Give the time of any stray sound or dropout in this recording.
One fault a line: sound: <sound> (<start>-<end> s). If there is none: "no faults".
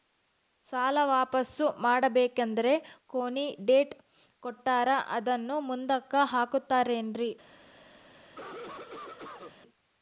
sound: cough (8.2-9.6 s)